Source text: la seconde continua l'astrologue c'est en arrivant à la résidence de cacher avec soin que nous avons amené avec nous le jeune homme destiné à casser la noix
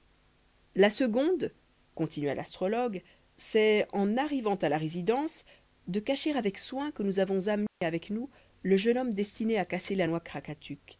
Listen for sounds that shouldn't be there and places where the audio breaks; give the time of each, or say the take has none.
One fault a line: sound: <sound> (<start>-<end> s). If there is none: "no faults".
sound: dropout (7.7-7.8 s)